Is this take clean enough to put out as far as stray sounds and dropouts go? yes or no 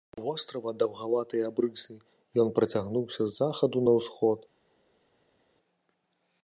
yes